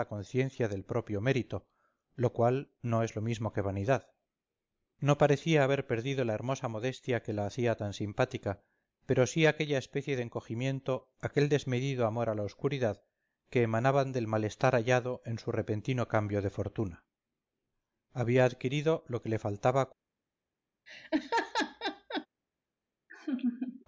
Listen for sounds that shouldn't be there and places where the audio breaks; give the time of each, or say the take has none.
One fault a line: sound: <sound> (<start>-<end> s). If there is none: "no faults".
sound: laugh (20.9-22.3 s)
sound: laugh (23.1-23.8 s)